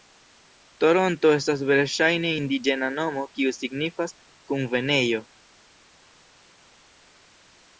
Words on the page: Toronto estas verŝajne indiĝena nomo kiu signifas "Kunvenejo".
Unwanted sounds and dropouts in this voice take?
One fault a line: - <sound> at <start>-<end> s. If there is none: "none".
none